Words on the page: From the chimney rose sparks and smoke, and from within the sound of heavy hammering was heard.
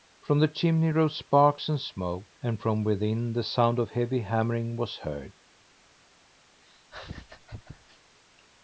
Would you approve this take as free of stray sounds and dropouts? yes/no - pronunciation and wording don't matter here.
no